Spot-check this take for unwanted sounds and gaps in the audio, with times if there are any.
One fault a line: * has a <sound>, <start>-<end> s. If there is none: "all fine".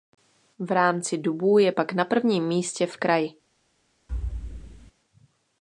* has a thud, 4.1-4.9 s